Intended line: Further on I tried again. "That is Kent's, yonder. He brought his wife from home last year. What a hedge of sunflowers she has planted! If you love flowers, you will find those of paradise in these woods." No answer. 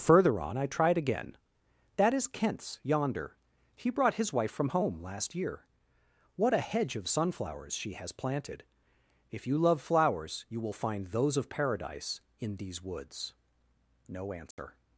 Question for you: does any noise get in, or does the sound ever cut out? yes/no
yes